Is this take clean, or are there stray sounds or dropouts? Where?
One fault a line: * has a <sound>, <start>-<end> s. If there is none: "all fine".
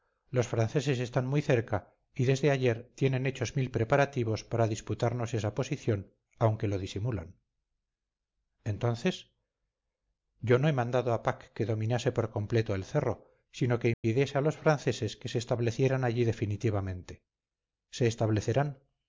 * has a dropout, 13.9-14.0 s